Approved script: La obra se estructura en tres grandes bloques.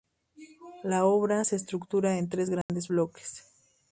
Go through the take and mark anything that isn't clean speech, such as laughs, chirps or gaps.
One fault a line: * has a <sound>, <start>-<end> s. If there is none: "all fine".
* has a dropout, 2.6-2.7 s